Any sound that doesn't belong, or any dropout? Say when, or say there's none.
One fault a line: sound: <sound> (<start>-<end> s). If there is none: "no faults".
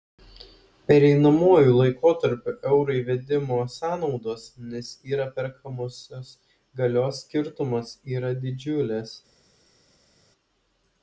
no faults